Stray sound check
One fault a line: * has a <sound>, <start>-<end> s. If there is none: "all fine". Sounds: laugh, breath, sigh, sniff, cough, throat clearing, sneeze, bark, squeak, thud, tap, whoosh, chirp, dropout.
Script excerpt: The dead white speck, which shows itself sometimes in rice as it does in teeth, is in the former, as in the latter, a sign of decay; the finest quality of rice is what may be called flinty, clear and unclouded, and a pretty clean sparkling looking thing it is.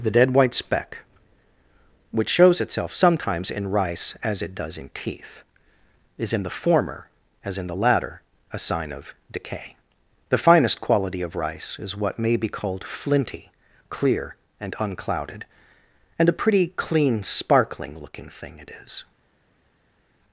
all fine